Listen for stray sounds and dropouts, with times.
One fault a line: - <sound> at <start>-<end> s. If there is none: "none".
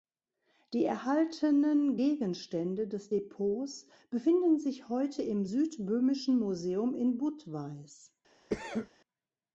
- cough at 8.5-8.9 s